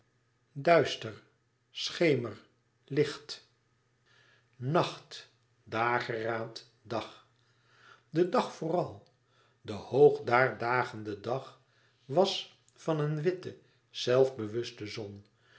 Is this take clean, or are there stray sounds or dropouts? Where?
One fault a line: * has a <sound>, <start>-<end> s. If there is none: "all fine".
all fine